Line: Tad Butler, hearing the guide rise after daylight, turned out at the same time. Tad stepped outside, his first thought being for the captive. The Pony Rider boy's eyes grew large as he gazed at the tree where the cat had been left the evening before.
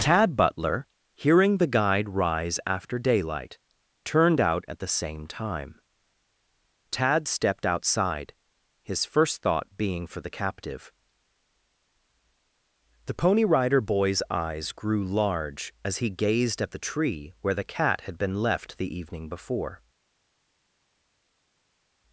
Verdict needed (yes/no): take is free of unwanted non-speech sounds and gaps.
yes